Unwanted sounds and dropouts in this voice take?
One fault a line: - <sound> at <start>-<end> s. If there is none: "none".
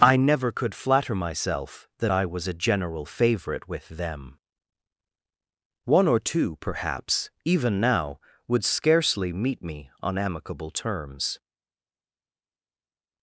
none